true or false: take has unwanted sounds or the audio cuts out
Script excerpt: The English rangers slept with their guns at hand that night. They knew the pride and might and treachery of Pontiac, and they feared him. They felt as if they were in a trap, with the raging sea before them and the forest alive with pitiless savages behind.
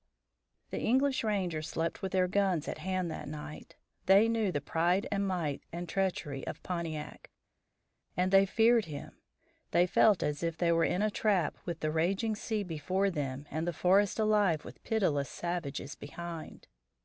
false